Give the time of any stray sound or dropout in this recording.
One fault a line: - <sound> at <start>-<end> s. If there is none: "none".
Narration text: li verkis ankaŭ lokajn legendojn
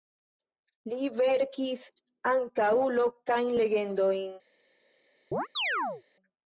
- chirp at 5.3-6.0 s